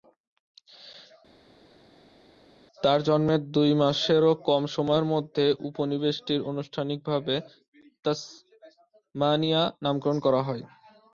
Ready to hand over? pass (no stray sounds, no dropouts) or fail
pass